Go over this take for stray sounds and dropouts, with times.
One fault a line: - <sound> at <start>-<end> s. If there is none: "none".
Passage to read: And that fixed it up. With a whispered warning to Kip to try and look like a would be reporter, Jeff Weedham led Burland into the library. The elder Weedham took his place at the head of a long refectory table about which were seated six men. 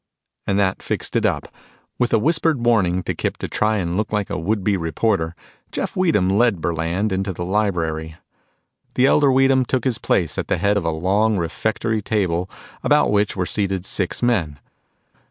none